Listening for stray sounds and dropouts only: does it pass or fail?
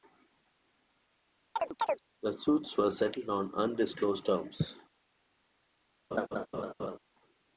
fail